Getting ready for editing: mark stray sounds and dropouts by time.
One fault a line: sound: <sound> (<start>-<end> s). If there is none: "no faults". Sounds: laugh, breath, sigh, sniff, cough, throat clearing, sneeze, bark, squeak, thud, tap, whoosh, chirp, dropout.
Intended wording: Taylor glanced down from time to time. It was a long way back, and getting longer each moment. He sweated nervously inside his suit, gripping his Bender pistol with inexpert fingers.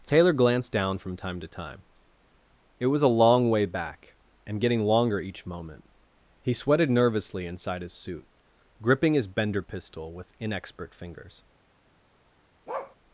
sound: bark (12.7-13.0 s)